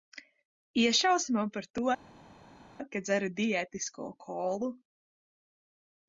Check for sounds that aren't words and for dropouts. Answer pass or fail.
pass